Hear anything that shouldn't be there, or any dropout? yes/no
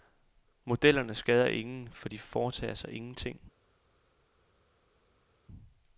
no